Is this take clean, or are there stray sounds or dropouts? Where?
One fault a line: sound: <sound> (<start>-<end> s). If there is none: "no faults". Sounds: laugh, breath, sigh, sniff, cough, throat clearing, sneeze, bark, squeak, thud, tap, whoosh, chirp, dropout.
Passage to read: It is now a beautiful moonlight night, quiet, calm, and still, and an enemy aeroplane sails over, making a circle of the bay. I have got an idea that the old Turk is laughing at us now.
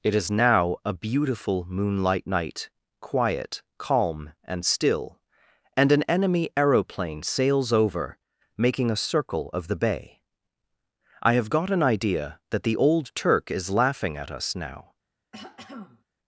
sound: throat clearing (15.3-16.0 s)